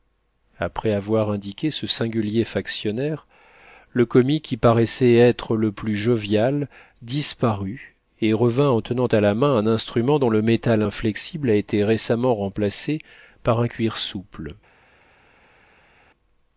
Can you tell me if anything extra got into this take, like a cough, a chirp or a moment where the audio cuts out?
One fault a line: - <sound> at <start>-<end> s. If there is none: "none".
none